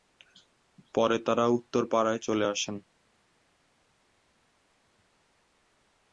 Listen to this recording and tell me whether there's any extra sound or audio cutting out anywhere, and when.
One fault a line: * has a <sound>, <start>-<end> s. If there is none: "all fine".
all fine